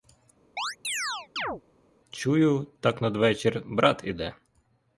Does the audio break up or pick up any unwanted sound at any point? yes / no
yes